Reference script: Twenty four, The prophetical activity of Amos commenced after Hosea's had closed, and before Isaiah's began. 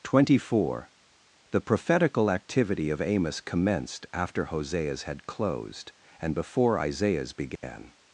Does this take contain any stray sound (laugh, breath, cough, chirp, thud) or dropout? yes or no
yes